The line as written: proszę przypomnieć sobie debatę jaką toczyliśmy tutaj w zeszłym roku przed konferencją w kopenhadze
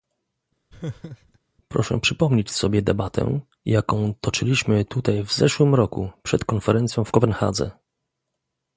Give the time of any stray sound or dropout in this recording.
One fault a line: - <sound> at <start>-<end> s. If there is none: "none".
- laugh at 0.7-1.4 s